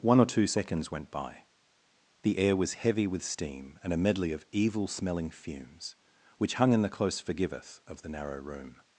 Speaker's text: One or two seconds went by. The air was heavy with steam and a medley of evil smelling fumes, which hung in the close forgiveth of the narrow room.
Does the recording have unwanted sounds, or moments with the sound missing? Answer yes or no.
no